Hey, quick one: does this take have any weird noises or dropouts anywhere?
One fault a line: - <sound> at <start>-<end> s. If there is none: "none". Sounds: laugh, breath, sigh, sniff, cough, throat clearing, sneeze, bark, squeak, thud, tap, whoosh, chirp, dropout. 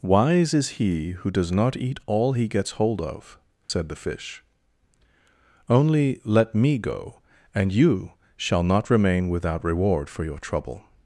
- dropout at 3.6-3.7 s